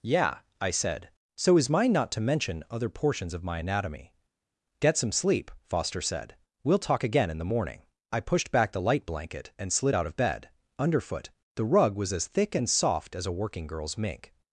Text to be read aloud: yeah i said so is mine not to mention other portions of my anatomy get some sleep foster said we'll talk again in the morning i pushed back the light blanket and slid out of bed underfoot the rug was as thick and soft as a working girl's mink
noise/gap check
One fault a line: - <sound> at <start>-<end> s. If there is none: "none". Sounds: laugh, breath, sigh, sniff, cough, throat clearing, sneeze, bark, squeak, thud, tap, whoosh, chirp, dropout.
none